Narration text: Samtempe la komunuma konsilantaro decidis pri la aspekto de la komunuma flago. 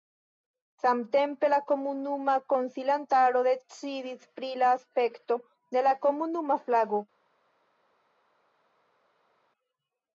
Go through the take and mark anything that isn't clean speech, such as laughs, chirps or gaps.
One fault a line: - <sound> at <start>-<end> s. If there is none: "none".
none